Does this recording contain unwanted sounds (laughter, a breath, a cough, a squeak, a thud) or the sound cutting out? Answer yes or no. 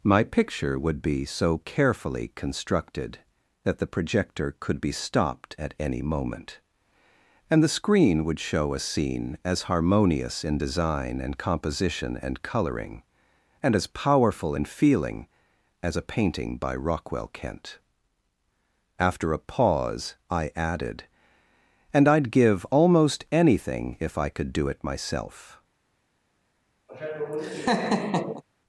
yes